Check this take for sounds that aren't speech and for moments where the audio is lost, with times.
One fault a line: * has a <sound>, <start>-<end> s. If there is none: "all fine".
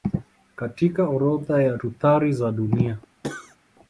* has a cough, 3.2-3.6 s